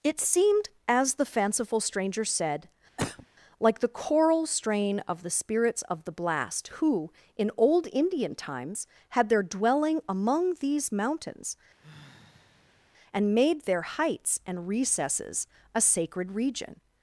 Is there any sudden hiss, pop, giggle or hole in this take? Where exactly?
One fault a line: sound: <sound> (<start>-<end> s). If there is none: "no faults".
sound: cough (3.0-3.3 s)
sound: sigh (11.8-12.9 s)